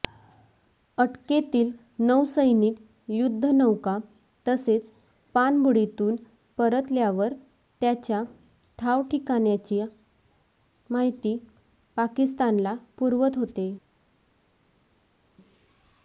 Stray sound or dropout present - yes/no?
no